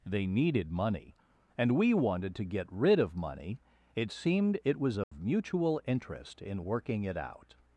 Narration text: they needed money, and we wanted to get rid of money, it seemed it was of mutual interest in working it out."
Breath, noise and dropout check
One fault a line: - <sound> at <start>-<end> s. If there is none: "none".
- dropout at 5.0-5.1 s